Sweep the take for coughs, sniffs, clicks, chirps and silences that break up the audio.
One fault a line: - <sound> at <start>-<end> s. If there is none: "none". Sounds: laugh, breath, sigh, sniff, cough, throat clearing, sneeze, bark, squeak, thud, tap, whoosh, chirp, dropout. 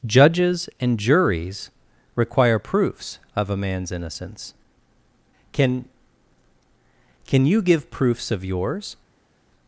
none